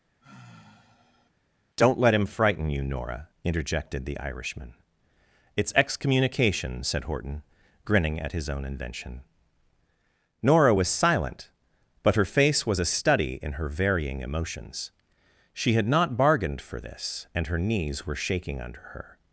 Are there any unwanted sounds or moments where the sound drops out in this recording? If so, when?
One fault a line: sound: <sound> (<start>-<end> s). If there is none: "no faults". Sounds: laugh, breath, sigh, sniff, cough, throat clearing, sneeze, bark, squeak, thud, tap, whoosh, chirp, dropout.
sound: sigh (0.2-1.3 s)